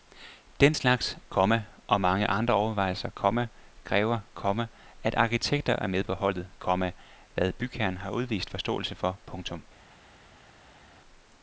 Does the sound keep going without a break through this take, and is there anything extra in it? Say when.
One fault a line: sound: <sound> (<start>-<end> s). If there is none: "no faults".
no faults